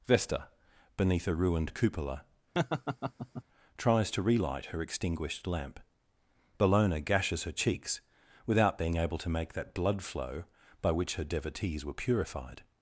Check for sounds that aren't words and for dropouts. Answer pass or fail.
fail